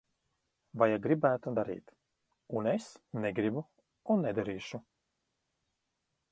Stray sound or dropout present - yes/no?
no